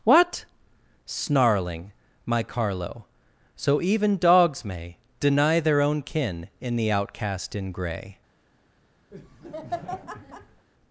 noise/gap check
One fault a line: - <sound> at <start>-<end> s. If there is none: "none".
- laugh at 9.1-10.7 s